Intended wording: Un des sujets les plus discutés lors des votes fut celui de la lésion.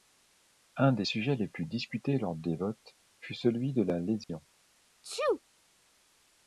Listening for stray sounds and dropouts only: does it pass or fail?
fail